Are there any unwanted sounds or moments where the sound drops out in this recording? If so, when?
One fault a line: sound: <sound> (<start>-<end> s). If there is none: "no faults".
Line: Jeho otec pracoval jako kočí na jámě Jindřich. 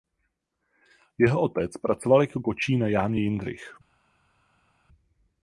no faults